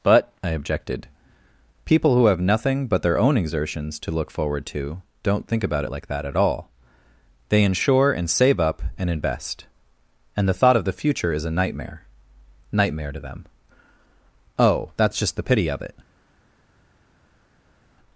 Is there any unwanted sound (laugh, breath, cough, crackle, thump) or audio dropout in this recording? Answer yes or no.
no